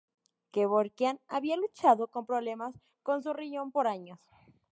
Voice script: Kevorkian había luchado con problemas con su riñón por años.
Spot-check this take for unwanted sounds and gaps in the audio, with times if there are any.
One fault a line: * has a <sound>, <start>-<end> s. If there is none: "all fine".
all fine